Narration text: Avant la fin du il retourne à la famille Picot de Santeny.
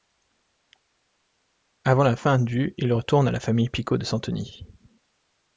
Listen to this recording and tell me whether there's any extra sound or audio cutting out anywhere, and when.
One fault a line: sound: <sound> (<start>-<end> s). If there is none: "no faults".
no faults